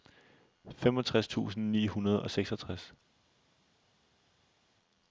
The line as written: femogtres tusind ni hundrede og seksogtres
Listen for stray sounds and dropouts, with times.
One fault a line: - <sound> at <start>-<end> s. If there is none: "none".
none